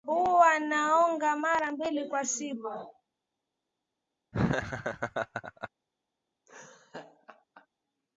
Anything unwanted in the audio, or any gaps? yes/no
yes